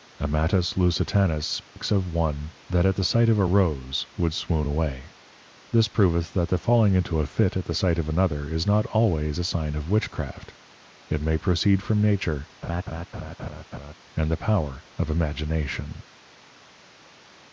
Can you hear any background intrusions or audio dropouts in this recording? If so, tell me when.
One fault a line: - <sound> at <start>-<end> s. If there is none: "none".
- dropout at 1.6-1.8 s
- laugh at 12.6-13.9 s